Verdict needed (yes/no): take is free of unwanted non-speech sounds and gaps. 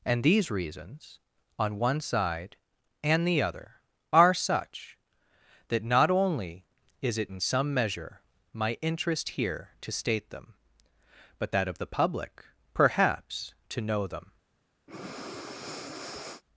no